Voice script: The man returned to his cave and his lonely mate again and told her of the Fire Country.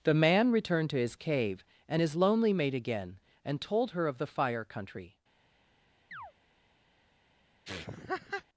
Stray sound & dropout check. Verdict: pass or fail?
fail